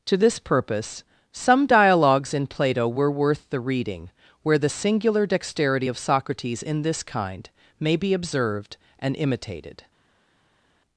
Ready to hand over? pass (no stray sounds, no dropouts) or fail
pass